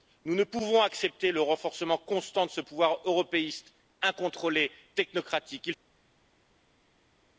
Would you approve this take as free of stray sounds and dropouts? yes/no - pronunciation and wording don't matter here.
yes